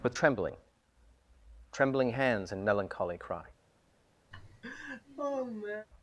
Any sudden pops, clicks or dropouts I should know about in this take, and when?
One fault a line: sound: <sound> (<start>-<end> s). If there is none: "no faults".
sound: laugh (4.3-5.9 s)